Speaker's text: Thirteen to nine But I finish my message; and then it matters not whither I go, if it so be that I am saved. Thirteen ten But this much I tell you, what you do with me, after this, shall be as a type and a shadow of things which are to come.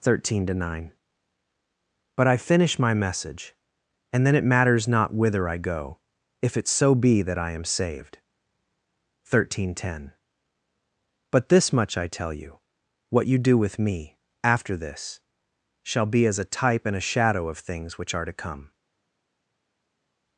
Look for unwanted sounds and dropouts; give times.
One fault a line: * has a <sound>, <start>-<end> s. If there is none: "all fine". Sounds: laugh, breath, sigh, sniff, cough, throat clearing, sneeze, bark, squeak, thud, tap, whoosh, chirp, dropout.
all fine